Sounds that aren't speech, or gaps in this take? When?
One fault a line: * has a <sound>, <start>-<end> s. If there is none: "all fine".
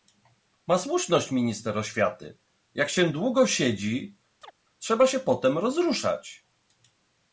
* has a chirp, 4.4-4.5 s